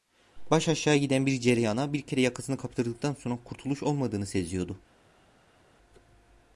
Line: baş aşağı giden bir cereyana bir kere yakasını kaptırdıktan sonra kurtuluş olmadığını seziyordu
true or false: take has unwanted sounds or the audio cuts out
false